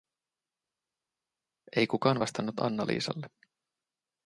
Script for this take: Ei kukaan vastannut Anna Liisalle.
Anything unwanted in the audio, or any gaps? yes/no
no